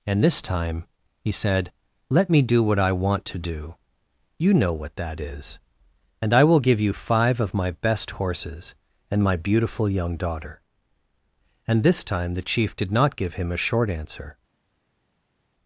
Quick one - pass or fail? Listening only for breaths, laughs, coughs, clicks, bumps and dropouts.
pass